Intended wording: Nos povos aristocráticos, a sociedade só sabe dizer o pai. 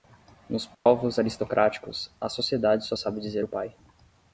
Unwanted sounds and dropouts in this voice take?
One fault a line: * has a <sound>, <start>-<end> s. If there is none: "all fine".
* has a dropout, 0.7-0.9 s